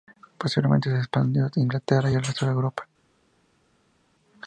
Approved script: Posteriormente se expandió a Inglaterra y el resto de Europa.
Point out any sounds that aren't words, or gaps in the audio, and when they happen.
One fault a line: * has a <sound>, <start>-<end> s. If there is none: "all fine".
all fine